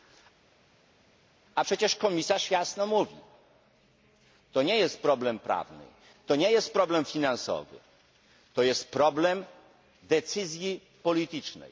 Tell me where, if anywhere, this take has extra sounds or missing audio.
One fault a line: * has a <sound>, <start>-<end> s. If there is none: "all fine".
all fine